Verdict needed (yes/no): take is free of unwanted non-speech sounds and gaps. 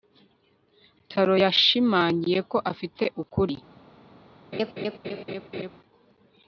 no